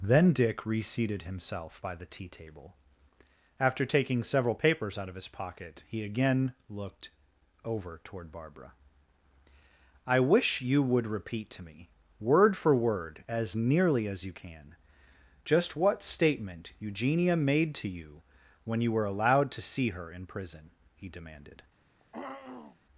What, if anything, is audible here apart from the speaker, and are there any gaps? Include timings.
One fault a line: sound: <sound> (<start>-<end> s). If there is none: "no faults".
sound: throat clearing (22.0-22.8 s)